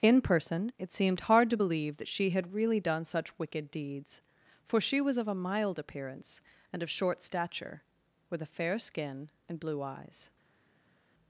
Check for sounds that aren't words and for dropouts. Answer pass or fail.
pass